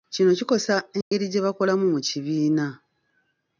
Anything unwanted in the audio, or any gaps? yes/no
yes